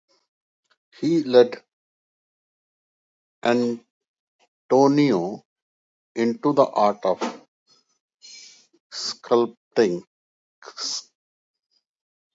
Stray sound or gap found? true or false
false